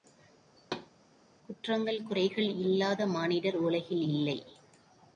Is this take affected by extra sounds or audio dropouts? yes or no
yes